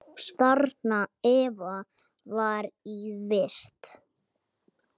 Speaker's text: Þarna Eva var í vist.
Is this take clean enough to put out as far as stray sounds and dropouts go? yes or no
yes